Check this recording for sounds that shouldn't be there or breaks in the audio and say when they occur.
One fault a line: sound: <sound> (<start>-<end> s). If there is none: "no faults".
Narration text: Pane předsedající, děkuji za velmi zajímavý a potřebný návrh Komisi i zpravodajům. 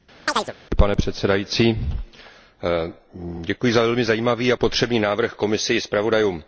sound: chirp (0.3-0.5 s)